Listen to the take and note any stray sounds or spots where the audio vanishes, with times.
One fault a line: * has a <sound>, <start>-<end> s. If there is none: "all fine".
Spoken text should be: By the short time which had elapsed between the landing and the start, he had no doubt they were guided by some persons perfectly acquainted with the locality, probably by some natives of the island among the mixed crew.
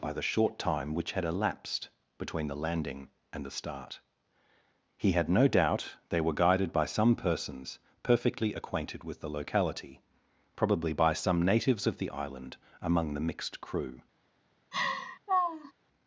* has a laugh, 14.7-15.7 s